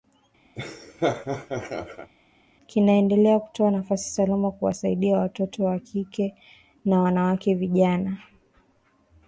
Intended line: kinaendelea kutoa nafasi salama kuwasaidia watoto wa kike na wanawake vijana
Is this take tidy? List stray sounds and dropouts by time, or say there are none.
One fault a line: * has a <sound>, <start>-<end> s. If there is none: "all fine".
* has a laugh, 0.6-2.1 s